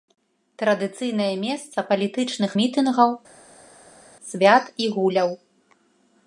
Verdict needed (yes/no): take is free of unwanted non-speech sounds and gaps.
yes